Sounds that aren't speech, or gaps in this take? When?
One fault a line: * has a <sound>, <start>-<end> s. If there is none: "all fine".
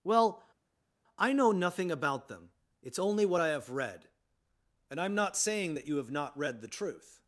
all fine